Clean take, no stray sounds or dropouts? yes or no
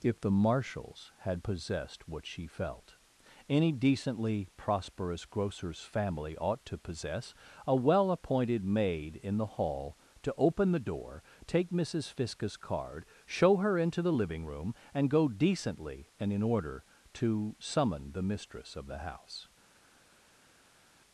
yes